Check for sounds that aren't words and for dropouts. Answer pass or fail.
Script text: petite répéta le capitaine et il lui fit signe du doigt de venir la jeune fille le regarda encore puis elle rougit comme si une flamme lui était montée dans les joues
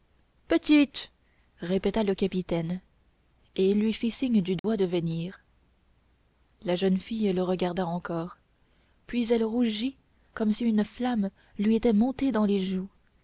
fail